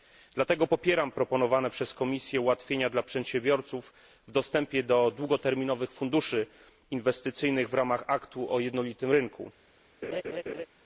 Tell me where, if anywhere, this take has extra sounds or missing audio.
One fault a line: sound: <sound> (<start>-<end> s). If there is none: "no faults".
sound: laugh (10.0-10.7 s)